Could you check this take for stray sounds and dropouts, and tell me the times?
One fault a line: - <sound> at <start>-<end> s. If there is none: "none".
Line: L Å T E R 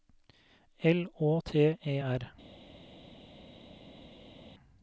none